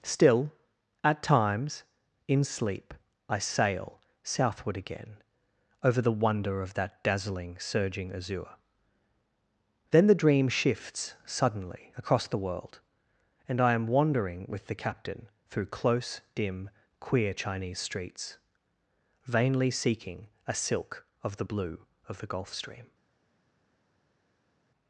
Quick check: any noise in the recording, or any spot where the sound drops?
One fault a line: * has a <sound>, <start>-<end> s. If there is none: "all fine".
all fine